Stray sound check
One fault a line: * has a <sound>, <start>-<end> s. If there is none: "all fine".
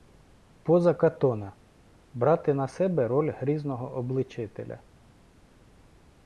all fine